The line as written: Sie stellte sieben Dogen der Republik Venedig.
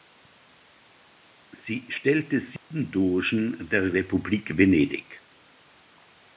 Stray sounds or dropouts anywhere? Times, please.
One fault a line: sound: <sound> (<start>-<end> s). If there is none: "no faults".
sound: dropout (2.6-2.7 s)